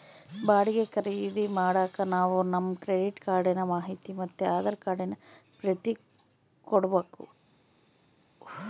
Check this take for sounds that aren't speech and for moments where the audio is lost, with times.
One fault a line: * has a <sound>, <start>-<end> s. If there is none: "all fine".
all fine